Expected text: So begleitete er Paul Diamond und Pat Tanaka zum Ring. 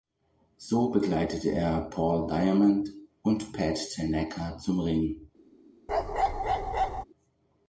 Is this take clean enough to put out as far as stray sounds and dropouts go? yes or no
no